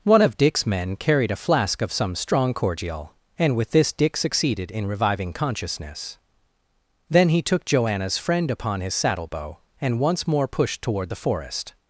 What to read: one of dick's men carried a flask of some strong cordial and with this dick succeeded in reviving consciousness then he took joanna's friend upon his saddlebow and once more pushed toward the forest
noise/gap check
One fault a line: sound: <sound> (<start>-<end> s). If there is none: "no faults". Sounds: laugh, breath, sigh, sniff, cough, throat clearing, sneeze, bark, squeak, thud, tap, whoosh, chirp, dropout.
no faults